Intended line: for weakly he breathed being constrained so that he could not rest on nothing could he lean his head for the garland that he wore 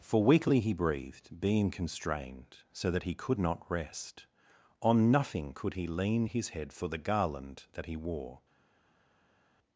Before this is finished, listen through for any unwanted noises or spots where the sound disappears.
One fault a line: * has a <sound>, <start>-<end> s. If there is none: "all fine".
all fine